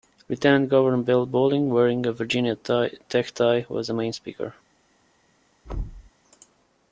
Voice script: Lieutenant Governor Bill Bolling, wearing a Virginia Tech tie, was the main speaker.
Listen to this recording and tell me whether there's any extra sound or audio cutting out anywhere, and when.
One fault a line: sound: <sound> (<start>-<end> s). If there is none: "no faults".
sound: thud (5.6-6.1 s)